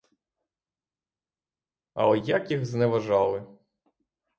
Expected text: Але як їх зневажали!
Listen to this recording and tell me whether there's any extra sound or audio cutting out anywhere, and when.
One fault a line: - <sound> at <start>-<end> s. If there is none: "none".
none